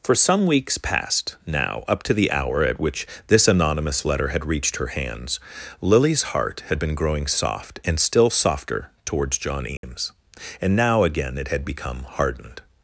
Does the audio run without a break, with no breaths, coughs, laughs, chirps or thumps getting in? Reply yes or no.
no